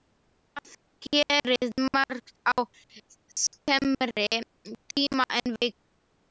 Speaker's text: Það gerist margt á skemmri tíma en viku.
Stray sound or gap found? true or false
false